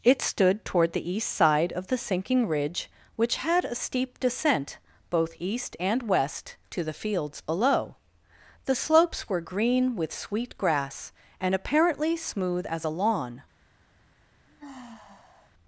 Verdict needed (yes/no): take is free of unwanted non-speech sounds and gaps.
no